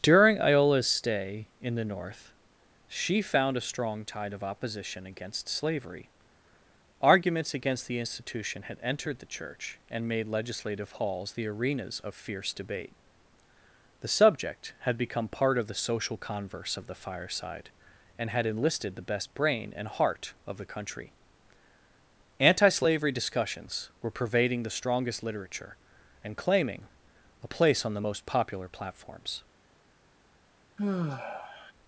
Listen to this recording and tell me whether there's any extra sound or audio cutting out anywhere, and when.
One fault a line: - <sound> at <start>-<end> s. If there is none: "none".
- sigh at 30.8-31.7 s